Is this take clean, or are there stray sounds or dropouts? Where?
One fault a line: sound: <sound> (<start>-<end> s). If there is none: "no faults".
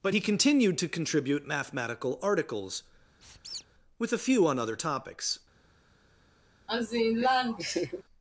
sound: squeak (3.2-3.7 s)
sound: laugh (6.7-8.0 s)